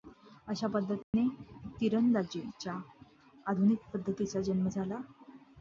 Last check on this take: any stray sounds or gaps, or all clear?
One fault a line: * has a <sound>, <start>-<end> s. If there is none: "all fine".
* has a dropout, 1.0-1.1 s